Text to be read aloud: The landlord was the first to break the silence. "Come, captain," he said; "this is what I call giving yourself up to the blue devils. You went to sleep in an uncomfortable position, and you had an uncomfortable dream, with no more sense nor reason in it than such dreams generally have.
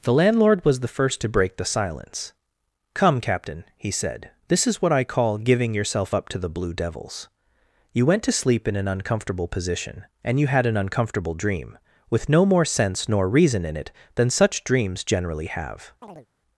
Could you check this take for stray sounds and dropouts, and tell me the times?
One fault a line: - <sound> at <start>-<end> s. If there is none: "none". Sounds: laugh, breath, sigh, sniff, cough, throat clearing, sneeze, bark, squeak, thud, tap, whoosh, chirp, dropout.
- chirp at 16.0-16.3 s